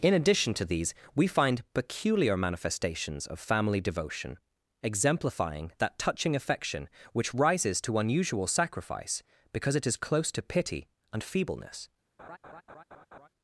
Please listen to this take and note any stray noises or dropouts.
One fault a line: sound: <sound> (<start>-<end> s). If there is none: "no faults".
sound: laugh (12.2-13.3 s)